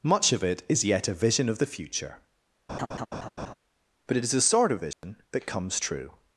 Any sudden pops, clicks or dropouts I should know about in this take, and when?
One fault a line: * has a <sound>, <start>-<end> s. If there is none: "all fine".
* has a laugh, 2.7-3.5 s
* has a dropout, 4.9-5.0 s